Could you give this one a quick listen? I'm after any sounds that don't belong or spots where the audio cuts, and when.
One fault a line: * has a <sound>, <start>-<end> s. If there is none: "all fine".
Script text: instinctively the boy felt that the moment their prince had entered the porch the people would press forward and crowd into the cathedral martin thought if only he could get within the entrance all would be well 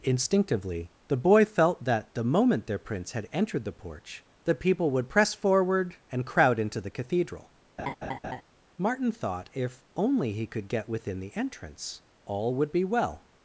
* has a laugh, 7.8-8.4 s